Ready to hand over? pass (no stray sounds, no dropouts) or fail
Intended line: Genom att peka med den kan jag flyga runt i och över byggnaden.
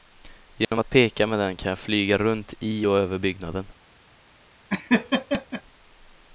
fail